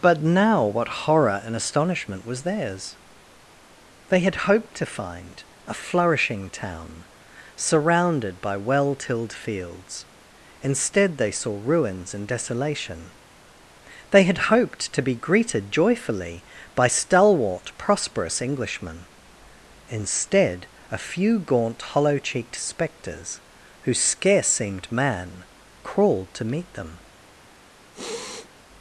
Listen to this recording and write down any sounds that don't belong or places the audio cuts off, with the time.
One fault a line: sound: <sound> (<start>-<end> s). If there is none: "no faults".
sound: sniff (27.9-28.5 s)